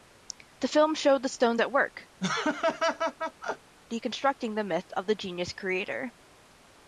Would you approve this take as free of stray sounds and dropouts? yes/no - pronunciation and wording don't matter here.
no